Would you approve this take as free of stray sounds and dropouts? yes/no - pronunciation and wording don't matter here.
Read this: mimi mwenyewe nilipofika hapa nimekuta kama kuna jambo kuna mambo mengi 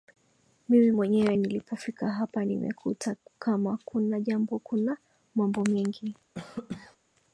no